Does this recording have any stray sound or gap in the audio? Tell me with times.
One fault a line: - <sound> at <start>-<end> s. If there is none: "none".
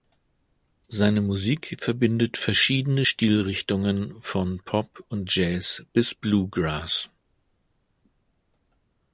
none